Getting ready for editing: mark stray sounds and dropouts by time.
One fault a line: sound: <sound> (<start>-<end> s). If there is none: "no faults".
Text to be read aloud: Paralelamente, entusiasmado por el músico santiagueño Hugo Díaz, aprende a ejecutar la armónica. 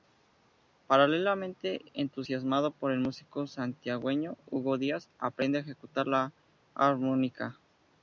no faults